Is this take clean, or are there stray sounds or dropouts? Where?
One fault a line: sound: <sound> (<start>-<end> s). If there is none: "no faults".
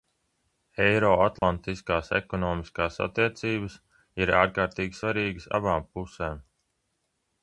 sound: dropout (1.4-1.4 s)